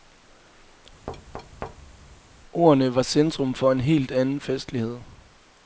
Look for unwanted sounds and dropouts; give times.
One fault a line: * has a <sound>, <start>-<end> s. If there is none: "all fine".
* has a thud, 1.1-2.2 s